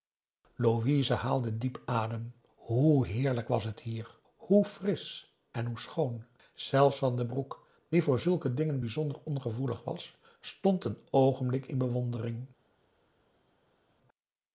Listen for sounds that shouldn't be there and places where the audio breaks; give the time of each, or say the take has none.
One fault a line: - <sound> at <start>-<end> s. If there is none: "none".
none